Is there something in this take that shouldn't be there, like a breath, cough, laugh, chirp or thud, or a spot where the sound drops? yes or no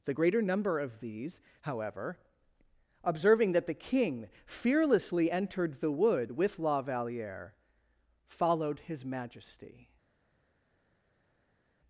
no